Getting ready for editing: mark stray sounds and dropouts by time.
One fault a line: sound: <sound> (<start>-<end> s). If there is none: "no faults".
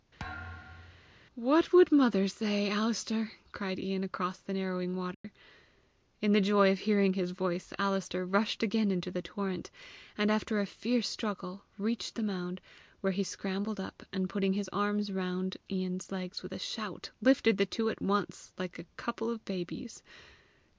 sound: thud (0.2-1.2 s)
sound: dropout (5.1-5.2 s)